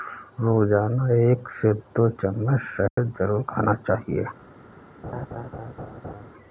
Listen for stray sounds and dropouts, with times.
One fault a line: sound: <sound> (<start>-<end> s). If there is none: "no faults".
sound: dropout (2.9-3.0 s)
sound: laugh (5.0-6.3 s)